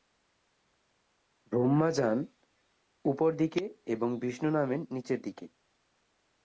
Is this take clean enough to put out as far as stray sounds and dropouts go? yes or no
yes